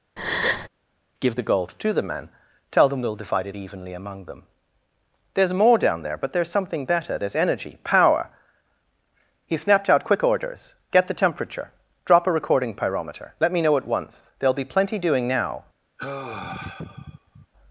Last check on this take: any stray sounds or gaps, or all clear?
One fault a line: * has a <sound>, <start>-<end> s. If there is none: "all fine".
* has a breath, 0.2-0.7 s
* has a sigh, 16.0-17.5 s